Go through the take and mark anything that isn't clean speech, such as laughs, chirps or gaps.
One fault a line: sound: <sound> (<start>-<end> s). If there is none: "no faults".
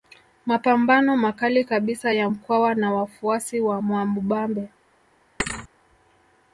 sound: thud (5.4-5.7 s)